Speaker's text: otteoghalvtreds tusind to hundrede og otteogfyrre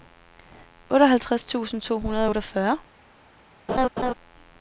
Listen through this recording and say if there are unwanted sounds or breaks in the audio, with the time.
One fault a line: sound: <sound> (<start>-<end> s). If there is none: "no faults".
sound: laugh (3.7-4.1 s)